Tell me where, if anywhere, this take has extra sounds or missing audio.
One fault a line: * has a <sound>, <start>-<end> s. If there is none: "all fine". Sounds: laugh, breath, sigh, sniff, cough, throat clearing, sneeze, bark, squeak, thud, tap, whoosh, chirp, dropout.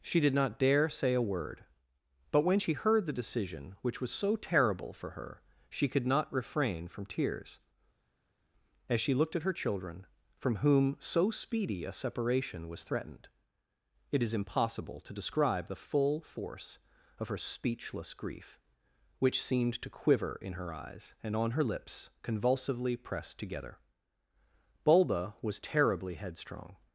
all fine